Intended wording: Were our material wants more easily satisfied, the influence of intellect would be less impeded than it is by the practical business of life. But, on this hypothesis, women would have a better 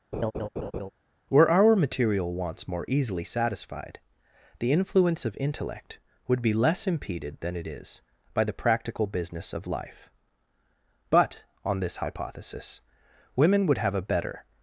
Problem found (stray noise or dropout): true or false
true